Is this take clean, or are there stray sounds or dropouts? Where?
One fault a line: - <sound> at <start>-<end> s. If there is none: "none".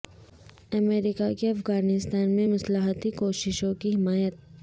none